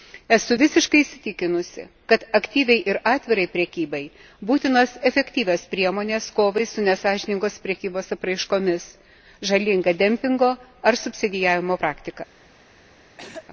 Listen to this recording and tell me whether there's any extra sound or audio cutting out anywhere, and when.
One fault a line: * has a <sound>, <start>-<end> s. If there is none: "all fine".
* has a throat clearing, 13.2-13.5 s